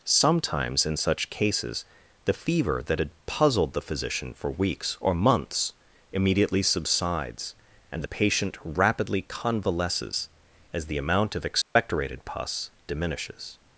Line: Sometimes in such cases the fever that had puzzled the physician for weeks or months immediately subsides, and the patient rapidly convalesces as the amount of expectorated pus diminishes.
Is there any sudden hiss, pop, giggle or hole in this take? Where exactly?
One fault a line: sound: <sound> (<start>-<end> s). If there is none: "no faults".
sound: dropout (11.6-11.8 s)